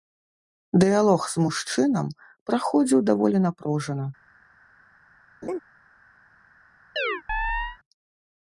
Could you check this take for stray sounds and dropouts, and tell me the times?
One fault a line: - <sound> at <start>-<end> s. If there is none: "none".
- laugh at 5.4-5.6 s
- chirp at 7.0-7.8 s